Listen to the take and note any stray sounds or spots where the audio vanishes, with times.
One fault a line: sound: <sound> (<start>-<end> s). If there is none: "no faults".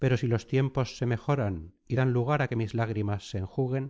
no faults